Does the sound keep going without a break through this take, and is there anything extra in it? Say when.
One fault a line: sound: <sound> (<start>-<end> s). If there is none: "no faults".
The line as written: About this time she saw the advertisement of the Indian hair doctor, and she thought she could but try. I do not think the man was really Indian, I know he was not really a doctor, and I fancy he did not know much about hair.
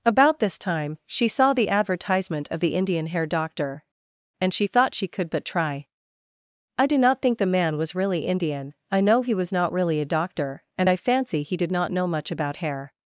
no faults